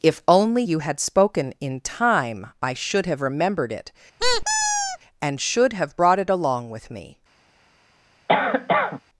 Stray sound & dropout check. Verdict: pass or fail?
fail